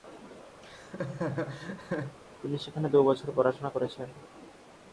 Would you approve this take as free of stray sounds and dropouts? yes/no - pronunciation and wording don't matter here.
no